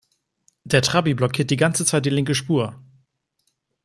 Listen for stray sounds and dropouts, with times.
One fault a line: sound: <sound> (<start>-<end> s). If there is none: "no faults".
no faults